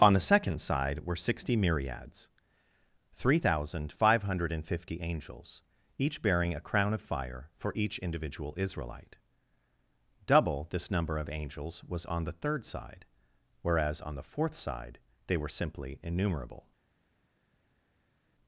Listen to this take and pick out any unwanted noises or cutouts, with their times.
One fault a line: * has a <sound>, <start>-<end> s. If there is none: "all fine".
all fine